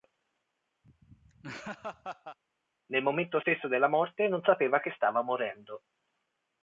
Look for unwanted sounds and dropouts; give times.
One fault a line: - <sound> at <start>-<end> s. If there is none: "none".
- laugh at 0.8-2.4 s